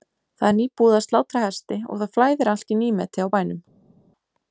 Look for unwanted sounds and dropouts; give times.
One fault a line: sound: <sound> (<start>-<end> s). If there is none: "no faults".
no faults